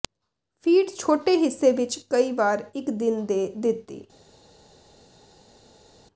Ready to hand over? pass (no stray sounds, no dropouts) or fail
pass